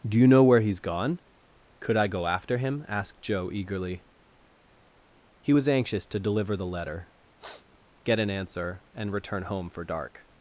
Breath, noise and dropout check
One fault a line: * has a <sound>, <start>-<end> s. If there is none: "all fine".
* has a sniff, 7.4-7.8 s